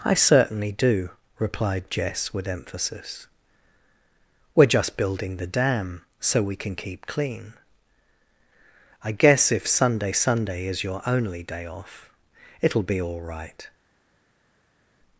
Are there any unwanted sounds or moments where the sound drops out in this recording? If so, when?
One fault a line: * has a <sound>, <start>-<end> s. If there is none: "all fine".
all fine